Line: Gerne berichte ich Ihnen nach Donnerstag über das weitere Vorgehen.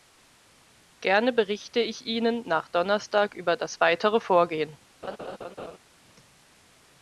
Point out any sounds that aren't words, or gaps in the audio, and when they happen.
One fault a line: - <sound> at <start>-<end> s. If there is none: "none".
- laugh at 5.0-5.8 s